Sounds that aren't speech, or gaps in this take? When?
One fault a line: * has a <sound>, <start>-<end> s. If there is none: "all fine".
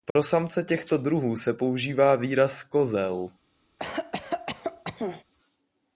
* has a dropout, 0.1-0.2 s
* has a cough, 3.8-5.2 s